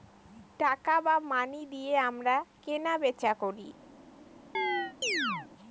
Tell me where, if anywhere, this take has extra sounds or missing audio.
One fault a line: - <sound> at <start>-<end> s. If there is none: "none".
- chirp at 4.5-5.5 s